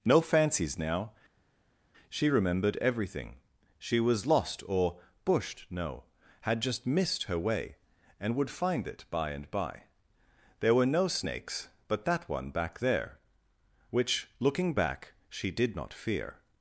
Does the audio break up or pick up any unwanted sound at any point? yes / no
no